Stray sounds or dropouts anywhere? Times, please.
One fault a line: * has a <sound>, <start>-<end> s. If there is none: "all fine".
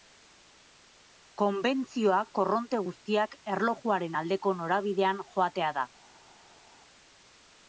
all fine